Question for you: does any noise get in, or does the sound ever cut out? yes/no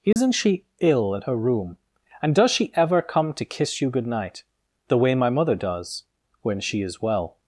yes